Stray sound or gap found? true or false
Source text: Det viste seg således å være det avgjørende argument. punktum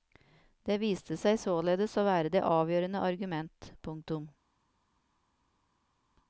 false